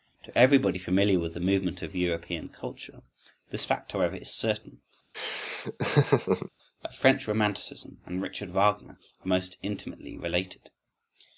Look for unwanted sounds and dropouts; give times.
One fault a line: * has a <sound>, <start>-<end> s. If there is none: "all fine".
* has a laugh, 5.1-6.5 s